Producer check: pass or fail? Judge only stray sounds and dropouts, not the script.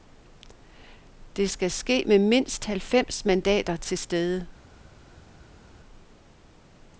pass